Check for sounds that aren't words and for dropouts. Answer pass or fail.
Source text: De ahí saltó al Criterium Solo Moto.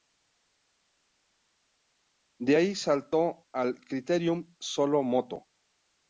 pass